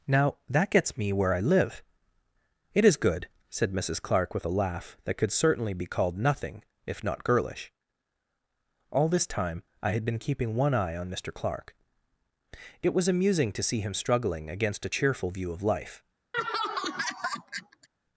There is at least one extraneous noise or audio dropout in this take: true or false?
true